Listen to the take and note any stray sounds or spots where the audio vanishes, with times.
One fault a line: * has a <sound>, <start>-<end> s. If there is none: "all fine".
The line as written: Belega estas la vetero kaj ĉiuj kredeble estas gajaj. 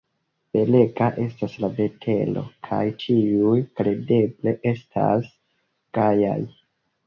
all fine